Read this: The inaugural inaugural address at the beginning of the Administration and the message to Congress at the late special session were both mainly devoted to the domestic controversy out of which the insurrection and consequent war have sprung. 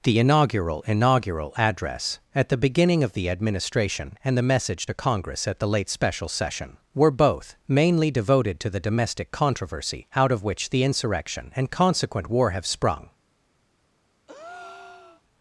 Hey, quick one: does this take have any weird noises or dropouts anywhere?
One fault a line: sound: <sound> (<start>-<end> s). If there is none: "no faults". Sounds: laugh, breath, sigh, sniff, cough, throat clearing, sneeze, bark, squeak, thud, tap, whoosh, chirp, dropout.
sound: breath (14.3-15.2 s)